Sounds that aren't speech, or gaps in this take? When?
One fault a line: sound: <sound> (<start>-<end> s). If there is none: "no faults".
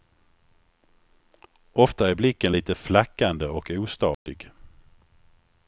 sound: dropout (4.1-4.3 s)